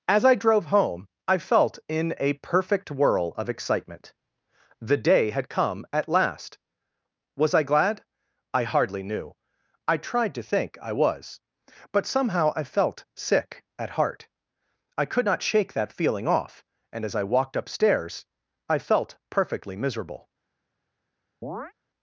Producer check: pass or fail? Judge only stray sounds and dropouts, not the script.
fail